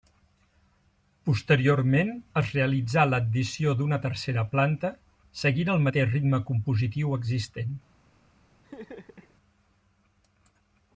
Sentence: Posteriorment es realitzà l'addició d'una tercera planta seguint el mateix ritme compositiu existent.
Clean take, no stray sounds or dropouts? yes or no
no